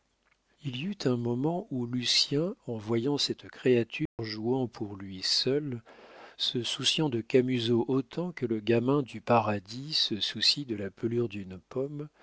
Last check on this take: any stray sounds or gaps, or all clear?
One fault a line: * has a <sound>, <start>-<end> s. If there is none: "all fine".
* has a dropout, 4.1-4.2 s